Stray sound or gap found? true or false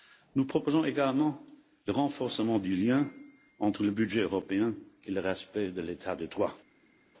false